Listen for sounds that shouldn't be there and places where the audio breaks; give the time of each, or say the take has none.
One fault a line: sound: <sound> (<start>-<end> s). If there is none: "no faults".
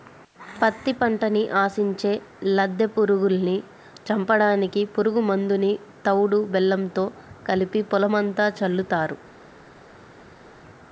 no faults